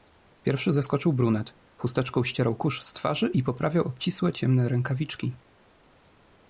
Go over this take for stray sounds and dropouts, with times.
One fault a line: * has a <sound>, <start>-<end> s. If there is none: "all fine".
all fine